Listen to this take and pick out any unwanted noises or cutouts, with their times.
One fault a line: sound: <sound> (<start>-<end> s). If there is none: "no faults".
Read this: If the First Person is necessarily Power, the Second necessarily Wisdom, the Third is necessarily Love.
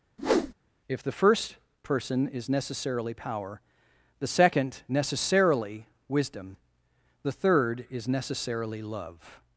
sound: whoosh (0.2-0.5 s)